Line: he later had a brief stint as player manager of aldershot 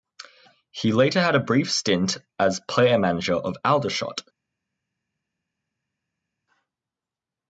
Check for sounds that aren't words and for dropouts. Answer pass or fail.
pass